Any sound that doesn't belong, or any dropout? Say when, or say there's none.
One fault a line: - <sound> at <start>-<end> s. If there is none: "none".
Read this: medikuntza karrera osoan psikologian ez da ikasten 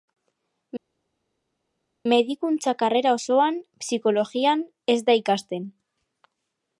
none